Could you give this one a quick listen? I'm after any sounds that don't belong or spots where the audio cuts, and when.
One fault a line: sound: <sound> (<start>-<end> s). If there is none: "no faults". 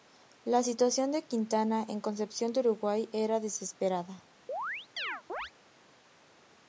sound: chirp (4.5-5.5 s)